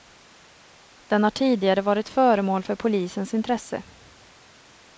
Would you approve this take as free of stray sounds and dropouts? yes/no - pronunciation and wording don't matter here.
yes